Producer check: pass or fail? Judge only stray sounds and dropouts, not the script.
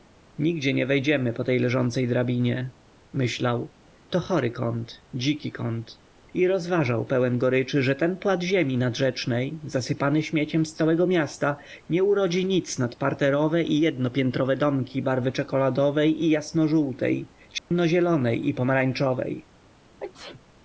fail